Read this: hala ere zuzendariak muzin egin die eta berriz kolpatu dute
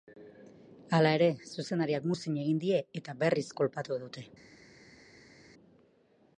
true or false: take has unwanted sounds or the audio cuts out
false